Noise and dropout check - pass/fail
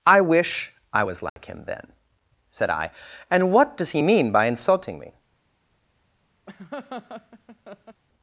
fail